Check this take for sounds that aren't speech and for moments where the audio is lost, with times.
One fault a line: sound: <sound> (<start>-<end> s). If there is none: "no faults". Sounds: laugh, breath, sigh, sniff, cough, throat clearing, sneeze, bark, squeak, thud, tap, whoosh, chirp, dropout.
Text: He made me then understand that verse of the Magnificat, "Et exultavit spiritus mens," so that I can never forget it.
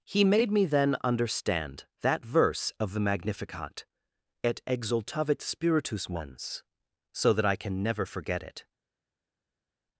no faults